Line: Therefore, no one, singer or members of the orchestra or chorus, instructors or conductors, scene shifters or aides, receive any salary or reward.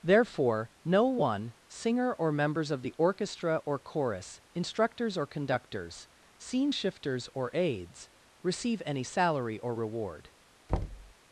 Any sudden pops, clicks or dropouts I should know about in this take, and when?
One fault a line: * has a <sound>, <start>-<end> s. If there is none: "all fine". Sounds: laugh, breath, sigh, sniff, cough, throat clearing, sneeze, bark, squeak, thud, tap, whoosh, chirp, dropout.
* has a thud, 10.7-11.1 s